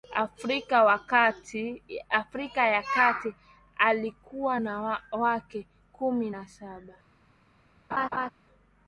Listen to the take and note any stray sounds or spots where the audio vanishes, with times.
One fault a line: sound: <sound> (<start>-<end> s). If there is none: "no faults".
sound: laugh (7.9-8.3 s)